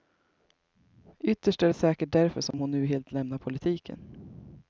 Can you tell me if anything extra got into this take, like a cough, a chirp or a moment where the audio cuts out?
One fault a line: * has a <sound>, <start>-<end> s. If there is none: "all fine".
* has a dropout, 2.5-2.5 s